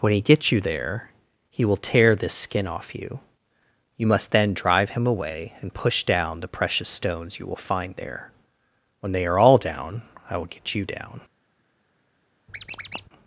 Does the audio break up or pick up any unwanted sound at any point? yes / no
yes